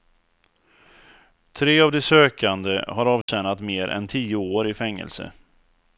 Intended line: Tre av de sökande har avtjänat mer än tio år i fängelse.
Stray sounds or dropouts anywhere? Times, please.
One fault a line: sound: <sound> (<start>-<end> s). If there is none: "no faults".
sound: dropout (3.2-3.3 s)